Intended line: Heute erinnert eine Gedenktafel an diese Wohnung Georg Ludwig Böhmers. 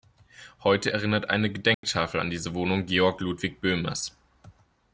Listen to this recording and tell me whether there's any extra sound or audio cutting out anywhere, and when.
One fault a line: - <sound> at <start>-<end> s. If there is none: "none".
- dropout at 1.7-1.8 s